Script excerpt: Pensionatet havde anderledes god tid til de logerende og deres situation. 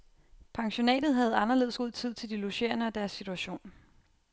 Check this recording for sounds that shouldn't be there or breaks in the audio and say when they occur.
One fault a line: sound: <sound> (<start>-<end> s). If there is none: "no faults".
no faults